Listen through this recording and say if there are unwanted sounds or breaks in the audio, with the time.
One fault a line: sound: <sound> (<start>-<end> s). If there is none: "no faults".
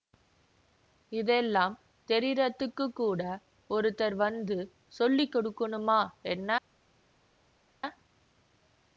no faults